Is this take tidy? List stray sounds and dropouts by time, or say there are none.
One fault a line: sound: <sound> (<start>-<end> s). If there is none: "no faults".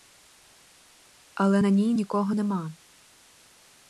no faults